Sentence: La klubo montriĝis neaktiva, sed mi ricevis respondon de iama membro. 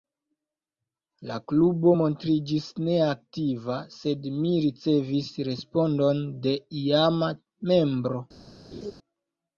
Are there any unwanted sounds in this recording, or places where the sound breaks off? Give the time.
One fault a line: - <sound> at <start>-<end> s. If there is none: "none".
- laugh at 8.7-8.9 s